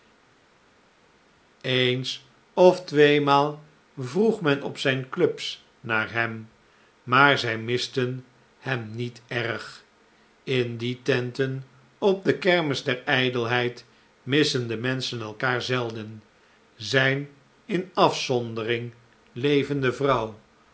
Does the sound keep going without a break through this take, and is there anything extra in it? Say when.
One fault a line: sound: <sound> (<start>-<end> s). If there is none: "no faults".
no faults